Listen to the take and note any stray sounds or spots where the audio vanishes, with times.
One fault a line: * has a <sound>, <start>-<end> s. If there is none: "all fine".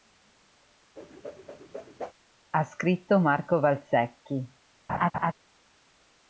* has a whoosh, 1.0-2.1 s
* has a laugh, 4.9-5.3 s